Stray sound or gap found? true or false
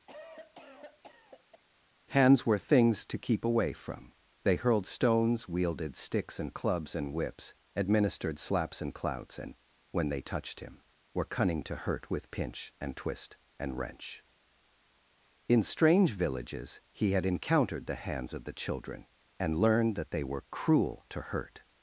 true